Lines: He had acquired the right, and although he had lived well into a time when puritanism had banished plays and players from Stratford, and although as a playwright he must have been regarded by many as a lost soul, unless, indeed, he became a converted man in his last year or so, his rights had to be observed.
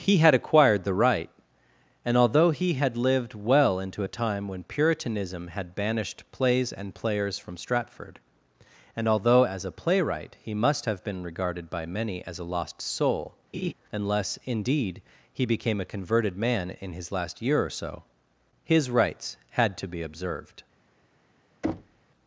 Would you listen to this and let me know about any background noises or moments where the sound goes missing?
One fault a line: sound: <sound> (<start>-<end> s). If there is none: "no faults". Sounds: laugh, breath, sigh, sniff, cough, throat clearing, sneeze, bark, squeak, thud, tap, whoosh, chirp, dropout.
sound: laugh (13.5-13.7 s)
sound: thud (21.6-22.0 s)